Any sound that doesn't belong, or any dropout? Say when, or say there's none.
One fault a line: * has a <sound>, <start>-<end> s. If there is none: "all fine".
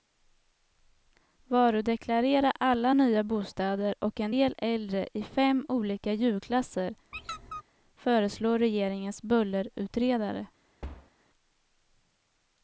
* has a squeak, 7.1-7.6 s
* has a thud, 10.8-11.1 s